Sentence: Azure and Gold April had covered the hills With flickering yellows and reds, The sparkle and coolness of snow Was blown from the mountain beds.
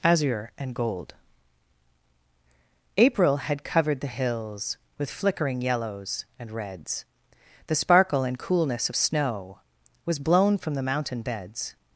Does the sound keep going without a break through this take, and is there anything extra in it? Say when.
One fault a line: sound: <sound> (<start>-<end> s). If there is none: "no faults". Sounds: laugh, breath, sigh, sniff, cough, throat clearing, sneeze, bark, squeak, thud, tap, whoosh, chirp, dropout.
no faults